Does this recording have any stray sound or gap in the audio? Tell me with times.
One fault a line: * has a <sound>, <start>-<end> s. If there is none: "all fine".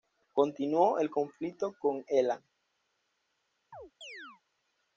* has a chirp, 3.7-4.4 s